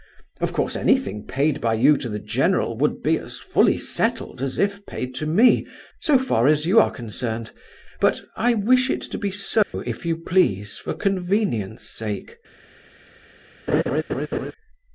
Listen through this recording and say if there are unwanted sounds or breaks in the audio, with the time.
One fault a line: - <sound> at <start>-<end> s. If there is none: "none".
- dropout at 9.6-9.7 s
- laugh at 13.7-14.5 s